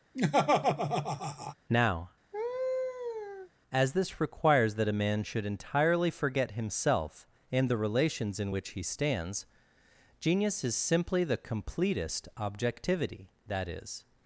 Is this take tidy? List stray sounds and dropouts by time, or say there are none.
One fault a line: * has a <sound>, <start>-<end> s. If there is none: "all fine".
* has a laugh, 0.1-1.5 s
* has a laugh, 2.3-3.5 s